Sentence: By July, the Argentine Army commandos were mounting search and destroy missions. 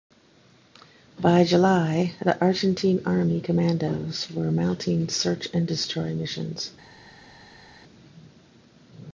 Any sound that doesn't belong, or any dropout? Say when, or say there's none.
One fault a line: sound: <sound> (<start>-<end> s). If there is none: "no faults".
no faults